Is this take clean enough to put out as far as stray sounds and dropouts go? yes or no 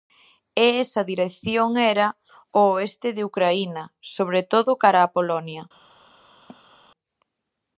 no